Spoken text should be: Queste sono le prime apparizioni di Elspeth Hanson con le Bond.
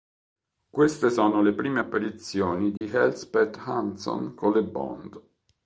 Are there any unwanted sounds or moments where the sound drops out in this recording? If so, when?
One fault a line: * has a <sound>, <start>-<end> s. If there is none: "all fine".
* has a dropout, 2.8-2.8 s